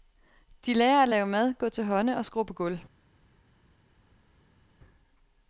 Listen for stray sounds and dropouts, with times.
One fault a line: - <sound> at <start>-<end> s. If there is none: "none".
none